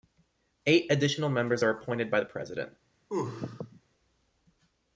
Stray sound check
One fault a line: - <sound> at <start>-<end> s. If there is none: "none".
- sneeze at 3.1-3.8 s